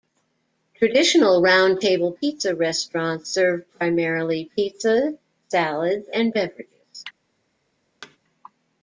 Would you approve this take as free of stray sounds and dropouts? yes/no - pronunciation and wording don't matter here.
no